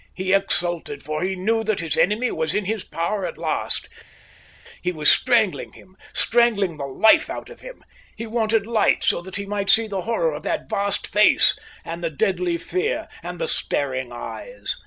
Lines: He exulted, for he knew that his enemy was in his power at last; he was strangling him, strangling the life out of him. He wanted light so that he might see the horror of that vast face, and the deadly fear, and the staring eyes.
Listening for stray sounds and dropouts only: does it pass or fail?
pass